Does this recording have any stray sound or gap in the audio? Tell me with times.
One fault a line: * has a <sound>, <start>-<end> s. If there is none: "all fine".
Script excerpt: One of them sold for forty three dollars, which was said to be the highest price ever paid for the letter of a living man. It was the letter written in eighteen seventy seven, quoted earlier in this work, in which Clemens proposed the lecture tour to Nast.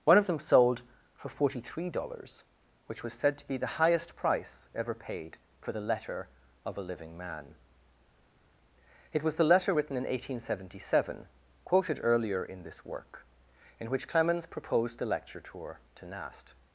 all fine